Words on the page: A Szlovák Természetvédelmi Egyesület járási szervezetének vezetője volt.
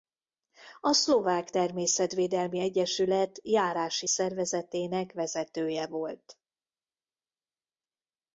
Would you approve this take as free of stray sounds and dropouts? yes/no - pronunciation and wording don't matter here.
yes